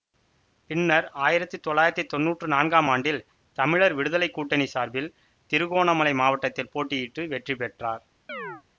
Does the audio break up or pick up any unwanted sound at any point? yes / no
yes